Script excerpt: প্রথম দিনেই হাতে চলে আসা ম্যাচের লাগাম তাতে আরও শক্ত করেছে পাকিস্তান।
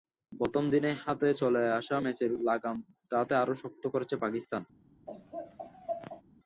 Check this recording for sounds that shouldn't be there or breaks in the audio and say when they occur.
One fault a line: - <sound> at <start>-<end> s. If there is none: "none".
- laugh at 5.1-6.2 s